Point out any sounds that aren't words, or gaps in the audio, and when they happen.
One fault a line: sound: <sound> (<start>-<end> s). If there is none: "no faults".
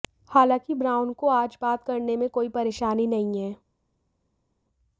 no faults